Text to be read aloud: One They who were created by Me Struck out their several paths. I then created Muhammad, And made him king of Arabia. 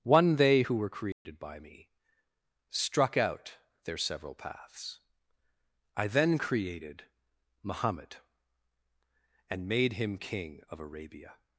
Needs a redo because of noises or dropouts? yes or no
yes